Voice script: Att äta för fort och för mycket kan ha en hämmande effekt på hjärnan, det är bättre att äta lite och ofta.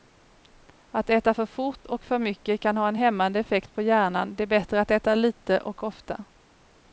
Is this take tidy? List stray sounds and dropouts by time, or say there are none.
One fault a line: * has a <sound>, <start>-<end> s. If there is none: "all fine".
all fine